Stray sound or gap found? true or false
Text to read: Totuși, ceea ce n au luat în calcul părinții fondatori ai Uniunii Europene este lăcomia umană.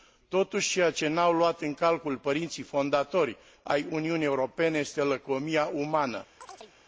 true